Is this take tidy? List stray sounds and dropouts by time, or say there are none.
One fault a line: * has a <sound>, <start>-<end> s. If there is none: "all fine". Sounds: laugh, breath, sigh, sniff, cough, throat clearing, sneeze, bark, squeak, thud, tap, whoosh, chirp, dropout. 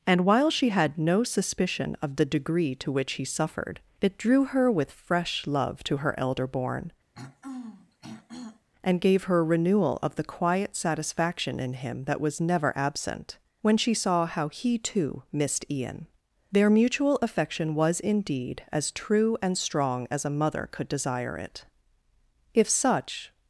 * has a throat clearing, 7.1-8.7 s